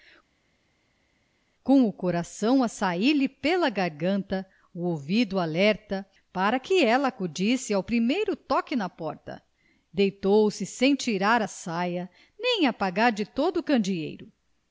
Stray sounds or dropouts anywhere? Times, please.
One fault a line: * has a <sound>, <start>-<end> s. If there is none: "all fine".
all fine